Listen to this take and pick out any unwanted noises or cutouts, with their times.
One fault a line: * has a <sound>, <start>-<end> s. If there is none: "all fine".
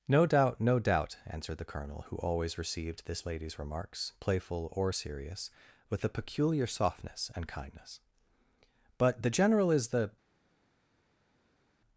all fine